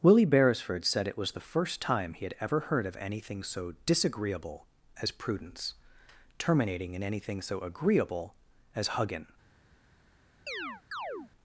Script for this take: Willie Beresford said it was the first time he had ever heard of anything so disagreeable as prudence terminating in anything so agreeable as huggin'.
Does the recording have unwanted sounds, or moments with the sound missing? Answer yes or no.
yes